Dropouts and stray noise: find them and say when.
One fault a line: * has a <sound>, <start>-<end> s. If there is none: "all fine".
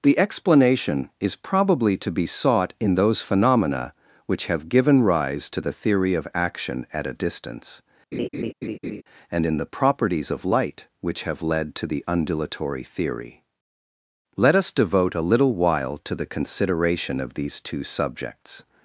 * has a laugh, 8.1-9.0 s